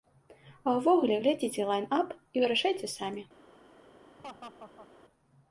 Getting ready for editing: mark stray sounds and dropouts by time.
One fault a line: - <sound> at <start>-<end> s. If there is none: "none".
- laugh at 4.2-4.9 s